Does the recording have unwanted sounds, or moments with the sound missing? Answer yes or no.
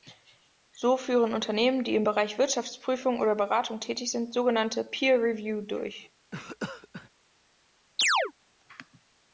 yes